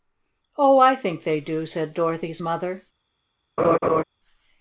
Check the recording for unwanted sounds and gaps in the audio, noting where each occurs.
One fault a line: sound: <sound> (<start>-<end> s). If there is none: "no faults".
sound: laugh (3.6-4.0 s)